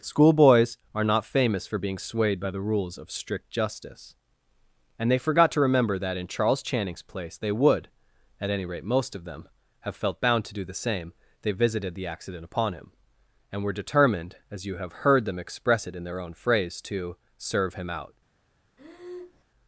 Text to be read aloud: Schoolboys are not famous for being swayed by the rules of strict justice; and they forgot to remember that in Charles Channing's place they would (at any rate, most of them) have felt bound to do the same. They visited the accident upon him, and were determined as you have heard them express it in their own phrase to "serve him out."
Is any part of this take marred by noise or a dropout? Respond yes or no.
yes